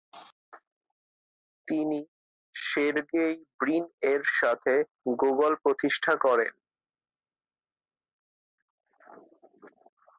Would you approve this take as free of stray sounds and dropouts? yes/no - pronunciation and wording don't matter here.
yes